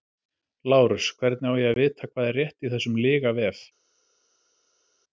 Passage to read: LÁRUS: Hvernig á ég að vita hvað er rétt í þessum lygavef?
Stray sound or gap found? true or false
false